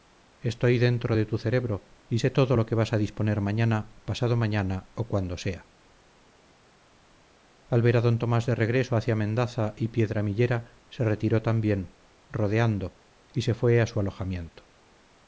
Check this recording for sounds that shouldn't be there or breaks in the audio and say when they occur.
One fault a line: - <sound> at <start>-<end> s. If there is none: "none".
none